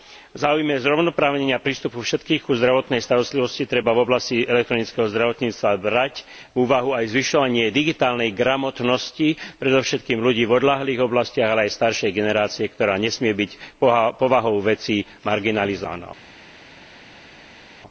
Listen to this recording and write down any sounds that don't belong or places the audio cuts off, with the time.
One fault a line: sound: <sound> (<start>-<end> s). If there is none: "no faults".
no faults